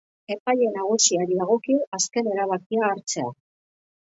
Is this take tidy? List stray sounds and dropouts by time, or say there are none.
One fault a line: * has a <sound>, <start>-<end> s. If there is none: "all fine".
all fine